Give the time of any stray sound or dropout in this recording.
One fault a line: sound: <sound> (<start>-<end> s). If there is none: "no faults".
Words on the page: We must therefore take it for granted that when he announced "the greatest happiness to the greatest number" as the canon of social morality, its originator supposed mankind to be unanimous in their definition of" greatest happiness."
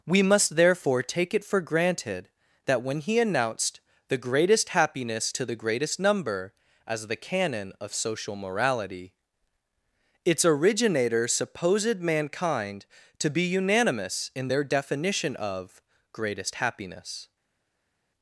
no faults